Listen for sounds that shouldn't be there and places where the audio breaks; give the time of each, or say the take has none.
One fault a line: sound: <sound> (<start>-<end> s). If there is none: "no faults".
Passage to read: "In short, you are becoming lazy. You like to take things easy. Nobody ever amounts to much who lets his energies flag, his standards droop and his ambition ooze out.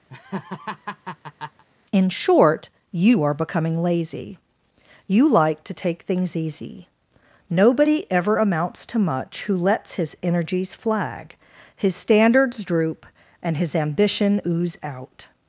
sound: laugh (0.1-1.6 s)